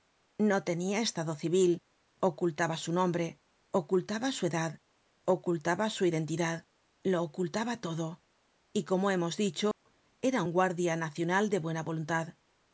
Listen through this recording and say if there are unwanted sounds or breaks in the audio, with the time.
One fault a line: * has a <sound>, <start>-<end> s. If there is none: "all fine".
* has a dropout, 9.7-9.9 s